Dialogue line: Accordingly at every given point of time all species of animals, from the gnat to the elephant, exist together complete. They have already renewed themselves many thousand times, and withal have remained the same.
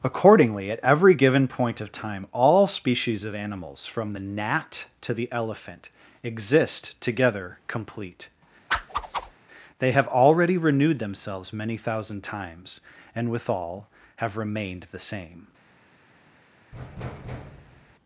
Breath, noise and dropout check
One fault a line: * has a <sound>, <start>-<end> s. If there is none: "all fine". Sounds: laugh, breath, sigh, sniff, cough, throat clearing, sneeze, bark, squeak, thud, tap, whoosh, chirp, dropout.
* has a whoosh, 8.7-9.3 s
* has a thud, 16.7-17.9 s